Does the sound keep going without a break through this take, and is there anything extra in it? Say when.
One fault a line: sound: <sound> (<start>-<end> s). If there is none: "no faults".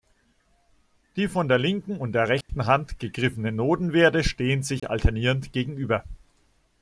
sound: dropout (2.4-2.5 s)
sound: dropout (4.8-4.8 s)